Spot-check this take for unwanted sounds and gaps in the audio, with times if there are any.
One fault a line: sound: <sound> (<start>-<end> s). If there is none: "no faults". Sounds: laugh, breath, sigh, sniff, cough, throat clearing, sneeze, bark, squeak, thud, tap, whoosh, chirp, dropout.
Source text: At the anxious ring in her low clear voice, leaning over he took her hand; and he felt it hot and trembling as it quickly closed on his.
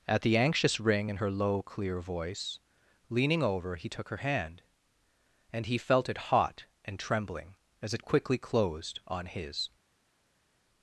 no faults